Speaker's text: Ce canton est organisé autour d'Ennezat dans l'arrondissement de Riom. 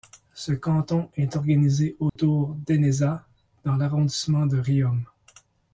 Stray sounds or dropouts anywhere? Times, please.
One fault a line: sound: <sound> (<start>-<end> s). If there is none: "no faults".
sound: dropout (2.1-2.2 s)